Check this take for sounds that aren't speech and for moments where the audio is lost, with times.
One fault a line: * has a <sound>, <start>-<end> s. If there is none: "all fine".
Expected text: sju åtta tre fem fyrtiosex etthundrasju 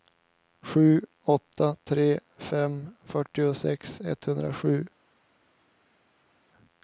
all fine